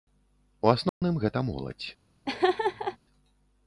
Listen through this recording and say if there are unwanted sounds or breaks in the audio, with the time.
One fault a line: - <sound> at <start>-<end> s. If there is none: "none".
- dropout at 0.9-1.0 s
- laugh at 2.3-3.0 s